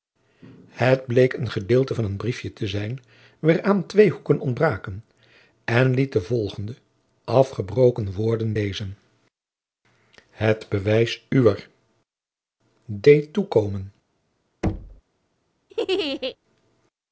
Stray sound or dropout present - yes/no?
yes